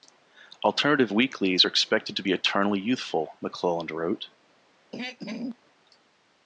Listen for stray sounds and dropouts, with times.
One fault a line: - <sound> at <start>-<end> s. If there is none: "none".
- throat clearing at 4.9-5.6 s